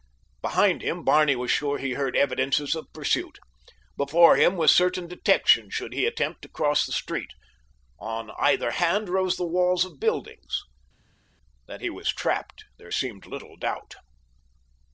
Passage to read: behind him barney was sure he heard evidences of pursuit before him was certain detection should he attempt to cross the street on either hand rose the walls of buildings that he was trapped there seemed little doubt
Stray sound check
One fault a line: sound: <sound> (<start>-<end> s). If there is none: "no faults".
no faults